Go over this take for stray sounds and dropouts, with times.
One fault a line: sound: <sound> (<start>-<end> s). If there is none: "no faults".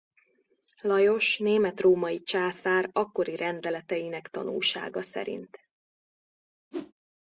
sound: whoosh (6.7-6.9 s)